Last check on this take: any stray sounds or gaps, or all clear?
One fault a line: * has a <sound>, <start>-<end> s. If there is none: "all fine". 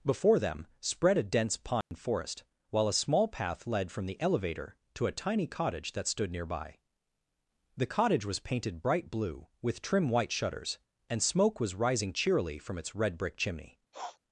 * has a dropout, 1.8-1.9 s
* has a sniff, 13.9-14.2 s